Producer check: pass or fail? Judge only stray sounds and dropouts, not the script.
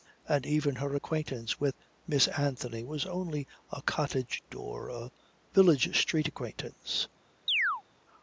fail